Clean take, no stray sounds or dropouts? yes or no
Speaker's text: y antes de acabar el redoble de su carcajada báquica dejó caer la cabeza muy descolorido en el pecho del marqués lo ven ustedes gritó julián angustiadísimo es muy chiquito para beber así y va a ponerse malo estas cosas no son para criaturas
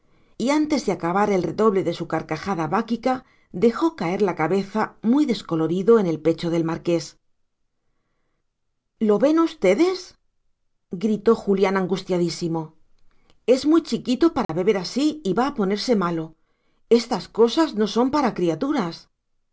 no